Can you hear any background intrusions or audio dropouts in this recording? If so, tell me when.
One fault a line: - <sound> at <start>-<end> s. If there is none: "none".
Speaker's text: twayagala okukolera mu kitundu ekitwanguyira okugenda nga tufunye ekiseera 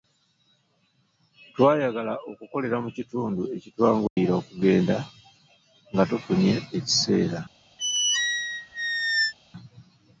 - dropout at 4.1-4.2 s
- squeak at 7.8-9.3 s